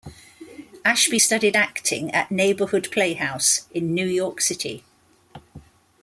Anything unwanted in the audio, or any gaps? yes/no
no